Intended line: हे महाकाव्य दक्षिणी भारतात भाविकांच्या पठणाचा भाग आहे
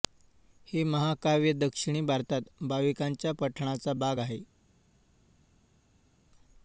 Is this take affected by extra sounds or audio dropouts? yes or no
no